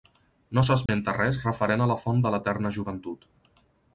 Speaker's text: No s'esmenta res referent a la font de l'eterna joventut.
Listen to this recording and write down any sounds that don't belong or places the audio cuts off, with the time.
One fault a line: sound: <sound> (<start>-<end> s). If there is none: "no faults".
sound: dropout (0.9-0.9 s)